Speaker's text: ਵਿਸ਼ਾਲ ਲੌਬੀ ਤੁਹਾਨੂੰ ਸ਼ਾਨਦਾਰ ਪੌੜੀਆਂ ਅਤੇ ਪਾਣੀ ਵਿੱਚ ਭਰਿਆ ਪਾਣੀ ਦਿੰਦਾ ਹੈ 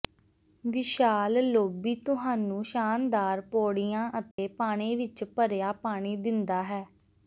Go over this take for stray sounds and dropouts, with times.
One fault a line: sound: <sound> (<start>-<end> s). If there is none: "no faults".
sound: dropout (4.3-4.4 s)